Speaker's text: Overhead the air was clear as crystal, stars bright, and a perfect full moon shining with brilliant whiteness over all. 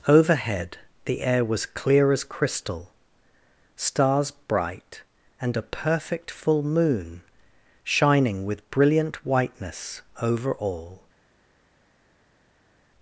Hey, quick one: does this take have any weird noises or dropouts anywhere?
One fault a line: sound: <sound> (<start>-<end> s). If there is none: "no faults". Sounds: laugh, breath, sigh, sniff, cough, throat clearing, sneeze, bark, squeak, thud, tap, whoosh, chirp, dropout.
no faults